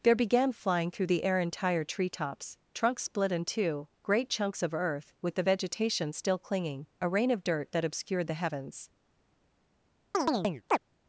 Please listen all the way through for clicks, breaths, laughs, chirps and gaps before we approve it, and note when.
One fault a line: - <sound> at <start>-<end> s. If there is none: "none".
- chirp at 10.1-10.8 s